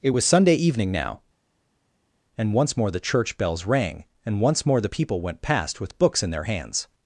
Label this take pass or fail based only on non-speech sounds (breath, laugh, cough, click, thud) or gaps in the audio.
pass